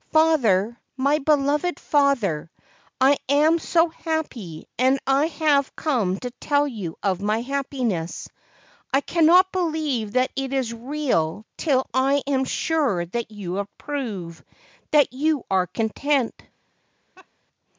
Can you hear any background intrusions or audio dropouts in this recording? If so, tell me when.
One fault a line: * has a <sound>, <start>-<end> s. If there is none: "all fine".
* has a laugh, 17.2-17.3 s